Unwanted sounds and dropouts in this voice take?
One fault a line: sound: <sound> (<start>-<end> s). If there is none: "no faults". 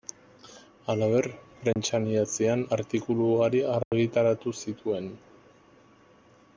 sound: dropout (1.7-1.8 s)
sound: dropout (3.8-3.9 s)